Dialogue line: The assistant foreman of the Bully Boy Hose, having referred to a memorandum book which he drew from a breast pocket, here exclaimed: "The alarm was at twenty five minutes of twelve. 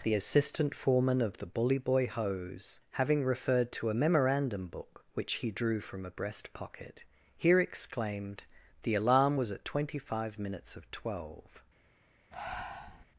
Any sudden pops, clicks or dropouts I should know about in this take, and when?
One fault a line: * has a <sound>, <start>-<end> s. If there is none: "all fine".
* has a breath, 12.3-13.1 s